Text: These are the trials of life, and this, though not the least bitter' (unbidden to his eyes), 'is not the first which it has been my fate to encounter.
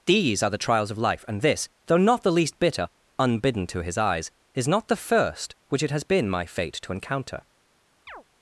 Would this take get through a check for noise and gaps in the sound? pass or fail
fail